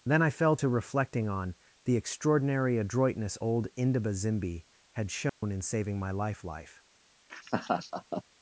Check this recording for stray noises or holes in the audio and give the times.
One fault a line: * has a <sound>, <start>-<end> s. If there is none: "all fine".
* has a dropout, 5.3-5.4 s
* has a laugh, 7.3-8.2 s